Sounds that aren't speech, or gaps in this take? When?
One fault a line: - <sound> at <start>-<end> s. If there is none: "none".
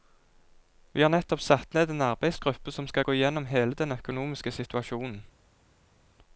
none